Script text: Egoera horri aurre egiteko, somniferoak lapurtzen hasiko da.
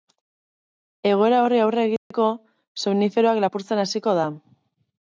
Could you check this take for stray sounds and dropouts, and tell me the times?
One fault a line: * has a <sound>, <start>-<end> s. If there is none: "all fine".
* has a dropout, 2.0-2.1 s